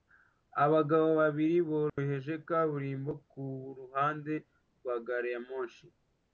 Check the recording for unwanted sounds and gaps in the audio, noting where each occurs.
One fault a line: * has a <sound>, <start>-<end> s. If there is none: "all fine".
* has a dropout, 1.9-2.0 s